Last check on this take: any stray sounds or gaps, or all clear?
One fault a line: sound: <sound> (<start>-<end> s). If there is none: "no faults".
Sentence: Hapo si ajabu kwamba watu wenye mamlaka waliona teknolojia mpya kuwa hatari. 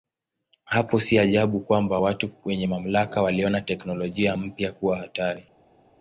no faults